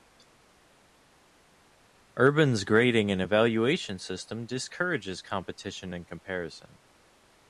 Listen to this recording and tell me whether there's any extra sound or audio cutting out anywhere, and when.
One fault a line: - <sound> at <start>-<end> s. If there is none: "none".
none